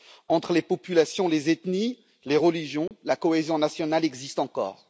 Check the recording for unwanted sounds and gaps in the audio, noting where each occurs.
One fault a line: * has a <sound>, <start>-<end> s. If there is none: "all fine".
* has a dropout, 2.9-2.9 s